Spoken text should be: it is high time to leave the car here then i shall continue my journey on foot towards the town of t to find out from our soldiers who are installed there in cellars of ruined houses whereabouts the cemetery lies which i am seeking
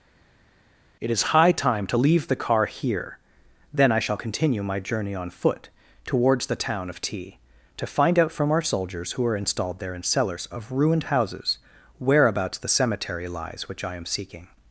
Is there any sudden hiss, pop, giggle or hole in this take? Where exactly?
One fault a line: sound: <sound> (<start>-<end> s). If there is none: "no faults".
no faults